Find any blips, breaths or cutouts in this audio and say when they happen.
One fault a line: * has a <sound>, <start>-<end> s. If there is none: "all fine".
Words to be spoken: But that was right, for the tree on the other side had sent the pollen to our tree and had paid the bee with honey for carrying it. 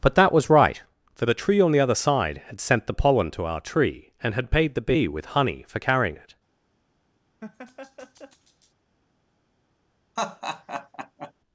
* has a laugh, 7.4-8.7 s
* has a laugh, 10.2-11.3 s